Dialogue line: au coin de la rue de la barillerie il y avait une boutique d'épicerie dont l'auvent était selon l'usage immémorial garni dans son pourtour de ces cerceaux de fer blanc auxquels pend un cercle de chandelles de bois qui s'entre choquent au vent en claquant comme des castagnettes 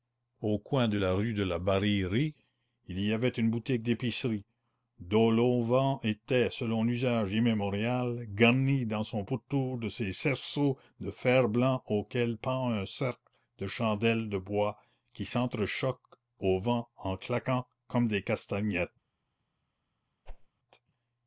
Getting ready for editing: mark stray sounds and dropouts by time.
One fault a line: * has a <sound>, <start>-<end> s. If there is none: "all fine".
* has a whoosh, 20.3-20.5 s